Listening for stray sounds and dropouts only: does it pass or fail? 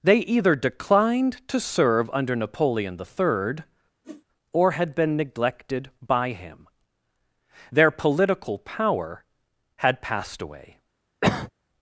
fail